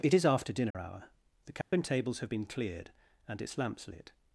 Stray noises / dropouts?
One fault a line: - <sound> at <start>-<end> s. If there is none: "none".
- dropout at 0.7-0.7 s
- dropout at 1.6-1.7 s